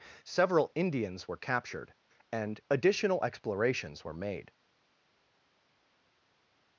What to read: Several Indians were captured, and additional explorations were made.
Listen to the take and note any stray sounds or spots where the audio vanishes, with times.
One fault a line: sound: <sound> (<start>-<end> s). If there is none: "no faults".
no faults